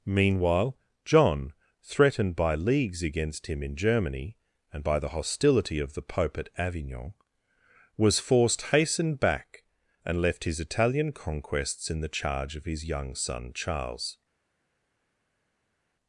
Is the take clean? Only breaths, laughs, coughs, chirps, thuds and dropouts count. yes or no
yes